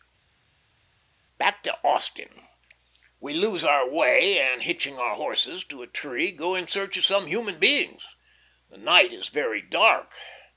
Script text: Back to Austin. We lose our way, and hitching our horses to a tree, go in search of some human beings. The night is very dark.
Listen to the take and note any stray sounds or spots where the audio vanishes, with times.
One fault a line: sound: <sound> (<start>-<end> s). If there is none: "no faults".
no faults